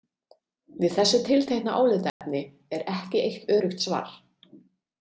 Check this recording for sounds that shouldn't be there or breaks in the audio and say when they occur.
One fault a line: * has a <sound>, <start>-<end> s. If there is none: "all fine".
* has a dropout, 2.1-2.2 s